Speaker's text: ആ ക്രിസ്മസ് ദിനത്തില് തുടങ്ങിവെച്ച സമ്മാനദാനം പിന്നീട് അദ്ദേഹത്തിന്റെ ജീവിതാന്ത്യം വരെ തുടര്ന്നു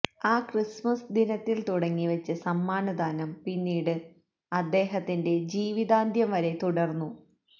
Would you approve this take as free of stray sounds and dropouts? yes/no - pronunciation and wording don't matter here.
yes